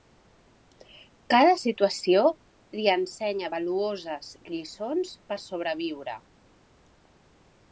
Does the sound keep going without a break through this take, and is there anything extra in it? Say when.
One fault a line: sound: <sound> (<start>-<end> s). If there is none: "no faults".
no faults